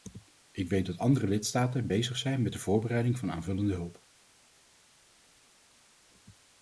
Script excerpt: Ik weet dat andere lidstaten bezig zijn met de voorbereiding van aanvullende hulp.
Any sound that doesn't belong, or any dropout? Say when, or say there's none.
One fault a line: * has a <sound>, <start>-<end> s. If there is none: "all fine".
all fine